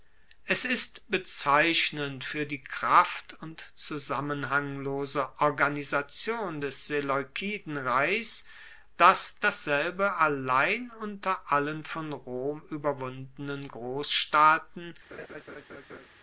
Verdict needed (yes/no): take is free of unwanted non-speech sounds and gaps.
no